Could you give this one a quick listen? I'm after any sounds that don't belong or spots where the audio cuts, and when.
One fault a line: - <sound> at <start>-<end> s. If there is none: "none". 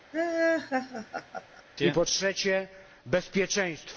- laugh at 0.1-1.6 s